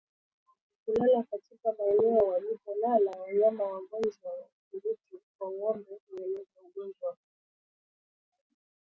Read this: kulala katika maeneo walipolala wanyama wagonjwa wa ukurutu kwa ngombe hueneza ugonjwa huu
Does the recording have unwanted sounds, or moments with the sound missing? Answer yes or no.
no